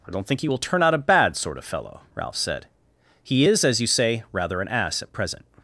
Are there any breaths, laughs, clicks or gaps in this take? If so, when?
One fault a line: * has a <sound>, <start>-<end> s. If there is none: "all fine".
all fine